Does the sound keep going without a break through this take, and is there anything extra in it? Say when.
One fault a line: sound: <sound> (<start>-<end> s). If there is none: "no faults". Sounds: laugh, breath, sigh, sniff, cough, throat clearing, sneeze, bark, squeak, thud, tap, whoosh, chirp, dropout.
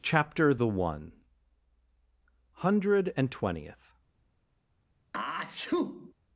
sound: sneeze (5.1-6.1 s)